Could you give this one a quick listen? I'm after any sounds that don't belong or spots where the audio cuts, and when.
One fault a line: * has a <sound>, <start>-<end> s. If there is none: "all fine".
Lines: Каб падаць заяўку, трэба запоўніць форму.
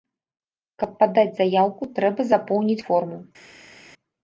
all fine